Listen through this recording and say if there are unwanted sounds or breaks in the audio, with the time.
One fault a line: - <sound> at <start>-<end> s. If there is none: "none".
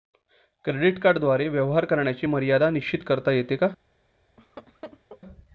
- laugh at 4.4-5.2 s